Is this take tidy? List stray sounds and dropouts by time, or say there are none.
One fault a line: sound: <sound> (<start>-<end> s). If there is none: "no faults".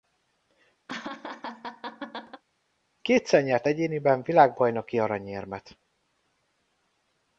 sound: laugh (0.9-2.4 s)